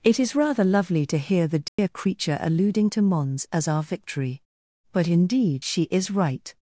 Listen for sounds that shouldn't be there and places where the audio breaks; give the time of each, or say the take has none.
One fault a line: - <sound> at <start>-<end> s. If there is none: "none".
- dropout at 1.7-1.8 s